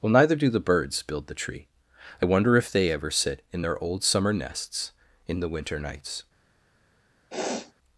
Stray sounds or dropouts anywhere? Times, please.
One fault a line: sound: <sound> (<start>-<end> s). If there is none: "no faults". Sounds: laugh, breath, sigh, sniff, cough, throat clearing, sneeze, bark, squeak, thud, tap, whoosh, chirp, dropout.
sound: sniff (7.3-7.7 s)